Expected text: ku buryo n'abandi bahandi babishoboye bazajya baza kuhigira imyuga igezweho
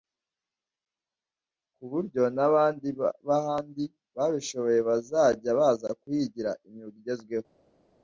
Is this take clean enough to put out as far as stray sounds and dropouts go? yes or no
yes